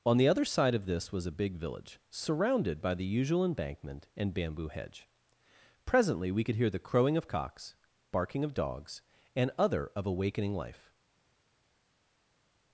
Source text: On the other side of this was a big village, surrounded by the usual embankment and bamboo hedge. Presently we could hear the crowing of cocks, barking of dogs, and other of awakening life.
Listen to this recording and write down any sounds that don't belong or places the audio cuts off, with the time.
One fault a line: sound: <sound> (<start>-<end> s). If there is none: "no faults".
no faults